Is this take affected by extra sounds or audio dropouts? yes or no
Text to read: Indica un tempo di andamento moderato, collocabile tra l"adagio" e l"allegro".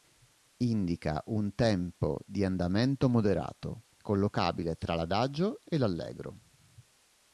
no